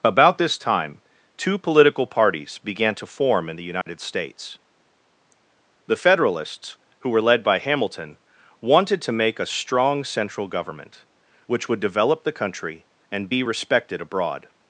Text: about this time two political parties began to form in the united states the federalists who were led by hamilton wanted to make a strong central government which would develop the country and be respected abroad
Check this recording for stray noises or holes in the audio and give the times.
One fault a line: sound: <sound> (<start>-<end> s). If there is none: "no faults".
sound: dropout (3.8-3.9 s)